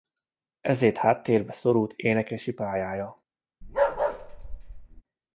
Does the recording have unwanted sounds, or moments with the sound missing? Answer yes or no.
yes